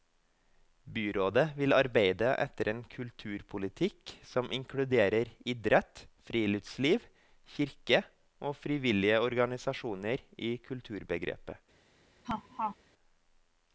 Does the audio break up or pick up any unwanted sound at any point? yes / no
yes